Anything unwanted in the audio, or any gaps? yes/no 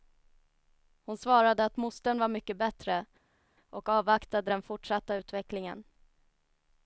no